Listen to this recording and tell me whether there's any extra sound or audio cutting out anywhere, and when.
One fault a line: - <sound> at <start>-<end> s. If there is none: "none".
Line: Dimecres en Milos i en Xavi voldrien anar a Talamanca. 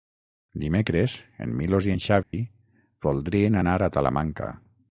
- dropout at 2.2-2.3 s